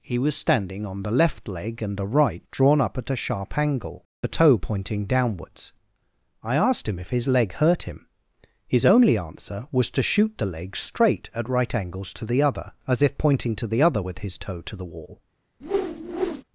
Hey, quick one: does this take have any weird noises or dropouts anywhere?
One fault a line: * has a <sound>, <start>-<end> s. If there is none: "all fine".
* has a whoosh, 15.6-16.4 s